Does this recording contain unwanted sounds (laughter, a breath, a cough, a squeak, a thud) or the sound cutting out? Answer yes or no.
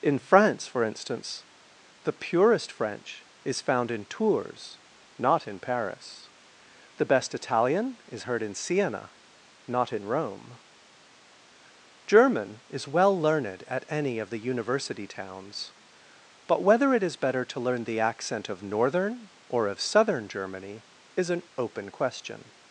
no